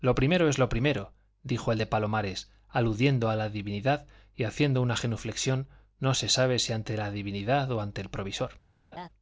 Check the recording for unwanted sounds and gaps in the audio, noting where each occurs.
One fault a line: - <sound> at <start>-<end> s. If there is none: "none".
- laugh at 8.9-9.1 s